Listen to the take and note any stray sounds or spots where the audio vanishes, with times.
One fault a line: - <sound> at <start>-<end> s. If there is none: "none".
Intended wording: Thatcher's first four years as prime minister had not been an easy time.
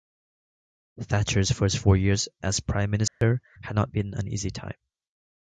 - dropout at 3.1-3.2 s